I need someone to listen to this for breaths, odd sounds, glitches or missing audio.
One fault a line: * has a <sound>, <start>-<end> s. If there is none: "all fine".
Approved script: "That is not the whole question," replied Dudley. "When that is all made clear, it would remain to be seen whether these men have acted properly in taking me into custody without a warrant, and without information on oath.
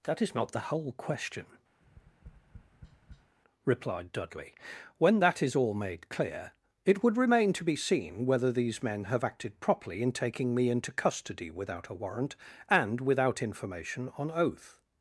* has a tap, 1.8-3.4 s